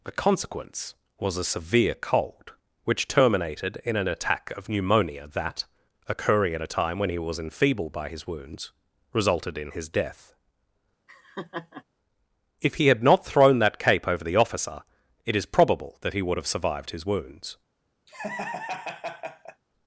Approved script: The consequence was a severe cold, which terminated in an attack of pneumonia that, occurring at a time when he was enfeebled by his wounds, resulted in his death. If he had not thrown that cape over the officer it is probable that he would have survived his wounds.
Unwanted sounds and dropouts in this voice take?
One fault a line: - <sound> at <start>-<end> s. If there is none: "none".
- laugh at 11.1-11.8 s
- laugh at 18.1-19.6 s